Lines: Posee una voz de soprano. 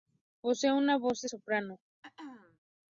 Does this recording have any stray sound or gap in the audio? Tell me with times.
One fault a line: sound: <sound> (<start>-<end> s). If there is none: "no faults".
sound: throat clearing (2.0-2.6 s)